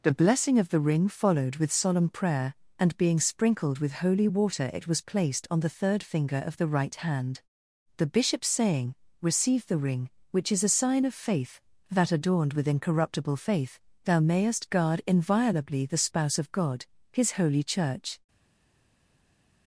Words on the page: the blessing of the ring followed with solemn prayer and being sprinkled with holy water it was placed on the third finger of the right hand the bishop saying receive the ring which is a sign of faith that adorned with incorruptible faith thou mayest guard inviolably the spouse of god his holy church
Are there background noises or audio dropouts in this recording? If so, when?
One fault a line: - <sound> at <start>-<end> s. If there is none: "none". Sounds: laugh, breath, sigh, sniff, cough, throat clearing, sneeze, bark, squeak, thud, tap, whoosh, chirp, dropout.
none